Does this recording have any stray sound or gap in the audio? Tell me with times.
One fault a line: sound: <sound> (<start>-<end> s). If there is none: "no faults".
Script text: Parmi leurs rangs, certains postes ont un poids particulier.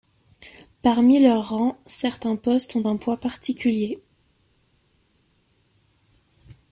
no faults